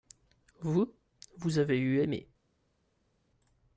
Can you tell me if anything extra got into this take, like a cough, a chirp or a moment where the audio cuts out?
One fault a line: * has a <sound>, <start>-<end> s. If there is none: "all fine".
all fine